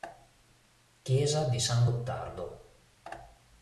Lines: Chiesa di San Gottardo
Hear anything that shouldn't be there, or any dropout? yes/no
no